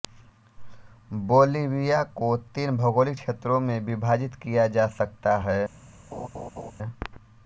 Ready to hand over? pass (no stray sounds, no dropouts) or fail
fail